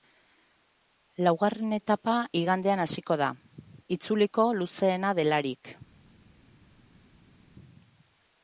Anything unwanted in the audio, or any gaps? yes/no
no